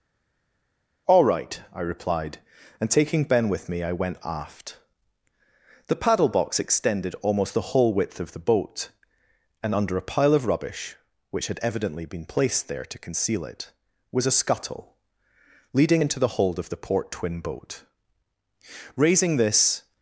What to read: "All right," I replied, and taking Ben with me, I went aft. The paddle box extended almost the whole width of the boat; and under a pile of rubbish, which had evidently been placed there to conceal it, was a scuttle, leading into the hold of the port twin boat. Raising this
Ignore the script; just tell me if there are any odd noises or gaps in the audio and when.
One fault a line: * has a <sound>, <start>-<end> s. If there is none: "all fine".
all fine